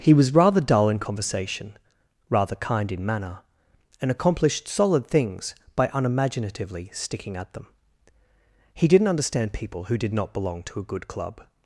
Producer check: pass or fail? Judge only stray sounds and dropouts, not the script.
pass